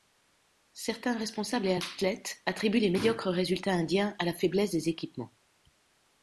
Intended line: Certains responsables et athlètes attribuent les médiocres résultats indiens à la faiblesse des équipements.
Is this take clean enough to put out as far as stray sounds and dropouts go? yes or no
yes